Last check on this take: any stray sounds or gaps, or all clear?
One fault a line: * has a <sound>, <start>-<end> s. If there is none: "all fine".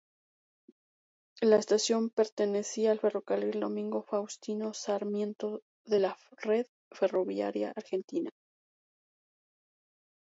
all fine